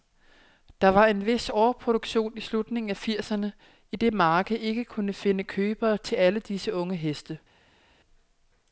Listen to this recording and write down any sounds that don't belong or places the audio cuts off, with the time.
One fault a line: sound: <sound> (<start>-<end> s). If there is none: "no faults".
no faults